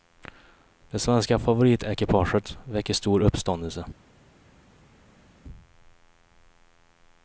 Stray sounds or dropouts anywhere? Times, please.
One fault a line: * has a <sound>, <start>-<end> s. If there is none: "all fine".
all fine